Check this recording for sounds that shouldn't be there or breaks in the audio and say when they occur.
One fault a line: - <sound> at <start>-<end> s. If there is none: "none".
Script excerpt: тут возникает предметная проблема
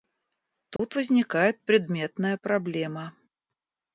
- dropout at 0.8-0.8 s